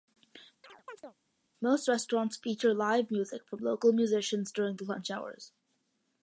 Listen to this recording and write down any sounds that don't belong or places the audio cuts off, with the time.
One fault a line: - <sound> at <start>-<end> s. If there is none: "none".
- chirp at 0.6-1.1 s